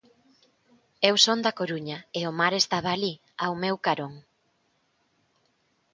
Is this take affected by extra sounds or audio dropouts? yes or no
no